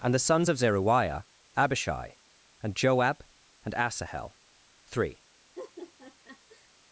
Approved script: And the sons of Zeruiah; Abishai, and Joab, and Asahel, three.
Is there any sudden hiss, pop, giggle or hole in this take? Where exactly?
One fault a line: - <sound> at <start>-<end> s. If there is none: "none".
- laugh at 5.6-6.7 s